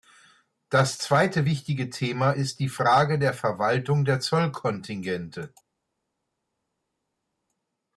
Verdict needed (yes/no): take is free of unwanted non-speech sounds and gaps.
yes